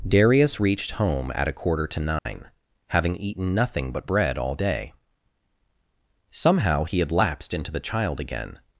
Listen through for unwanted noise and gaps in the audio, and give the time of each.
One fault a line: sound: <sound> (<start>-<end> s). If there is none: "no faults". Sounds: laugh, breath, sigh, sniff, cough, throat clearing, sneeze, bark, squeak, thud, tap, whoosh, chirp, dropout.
sound: dropout (2.2-2.3 s)